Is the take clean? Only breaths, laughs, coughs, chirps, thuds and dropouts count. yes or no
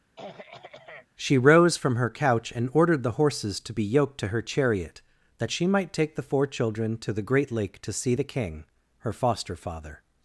no